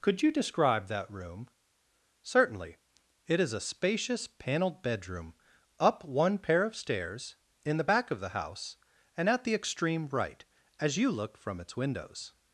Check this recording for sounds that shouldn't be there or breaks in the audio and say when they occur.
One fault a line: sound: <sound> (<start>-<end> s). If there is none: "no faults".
no faults